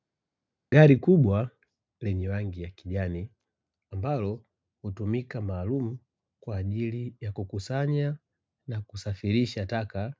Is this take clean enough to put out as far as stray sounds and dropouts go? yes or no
yes